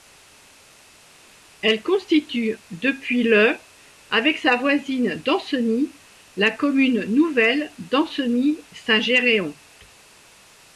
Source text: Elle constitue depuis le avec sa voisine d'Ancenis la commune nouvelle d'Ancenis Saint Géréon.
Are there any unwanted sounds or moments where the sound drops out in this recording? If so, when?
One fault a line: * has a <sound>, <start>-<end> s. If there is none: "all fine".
all fine